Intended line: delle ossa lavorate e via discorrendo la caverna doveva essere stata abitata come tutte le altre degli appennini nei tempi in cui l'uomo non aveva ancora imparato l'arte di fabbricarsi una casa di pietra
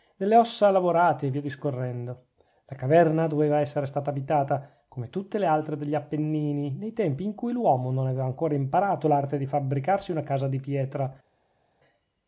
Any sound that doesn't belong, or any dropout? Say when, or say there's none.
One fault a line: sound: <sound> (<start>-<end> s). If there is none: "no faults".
no faults